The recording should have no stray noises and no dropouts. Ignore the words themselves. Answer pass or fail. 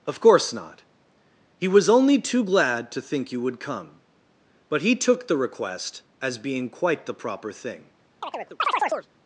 fail